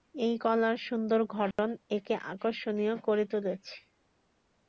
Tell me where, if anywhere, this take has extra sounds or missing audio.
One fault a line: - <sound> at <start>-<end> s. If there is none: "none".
- dropout at 1.5-1.6 s